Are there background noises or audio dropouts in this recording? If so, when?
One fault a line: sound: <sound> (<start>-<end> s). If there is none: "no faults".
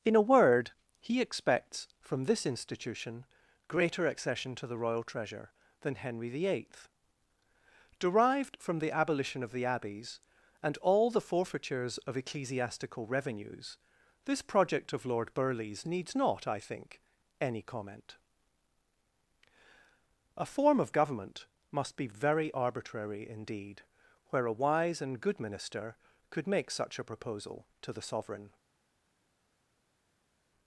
no faults